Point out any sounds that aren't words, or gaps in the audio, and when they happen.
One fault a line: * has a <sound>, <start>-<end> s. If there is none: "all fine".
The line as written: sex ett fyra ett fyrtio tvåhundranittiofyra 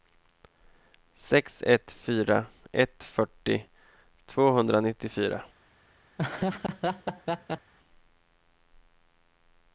* has a laugh, 6.2-7.7 s